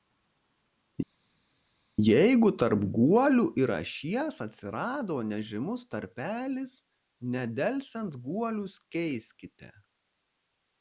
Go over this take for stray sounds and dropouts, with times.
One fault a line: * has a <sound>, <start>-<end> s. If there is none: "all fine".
all fine